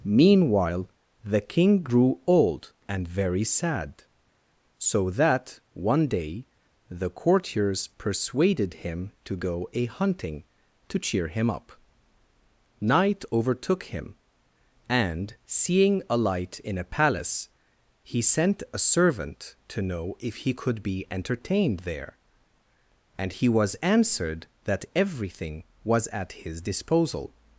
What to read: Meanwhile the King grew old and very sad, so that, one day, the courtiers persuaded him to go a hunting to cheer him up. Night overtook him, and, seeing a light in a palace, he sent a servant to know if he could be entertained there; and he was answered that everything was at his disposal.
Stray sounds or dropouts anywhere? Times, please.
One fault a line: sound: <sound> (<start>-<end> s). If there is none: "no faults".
no faults